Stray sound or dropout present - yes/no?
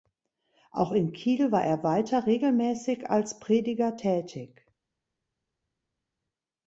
no